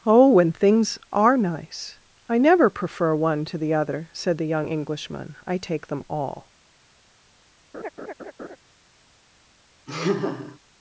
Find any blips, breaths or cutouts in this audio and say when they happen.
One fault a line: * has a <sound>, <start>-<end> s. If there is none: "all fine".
* has a laugh, 7.7-8.6 s
* has a laugh, 9.9-10.6 s